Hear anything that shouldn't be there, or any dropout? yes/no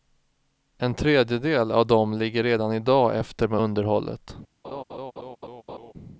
yes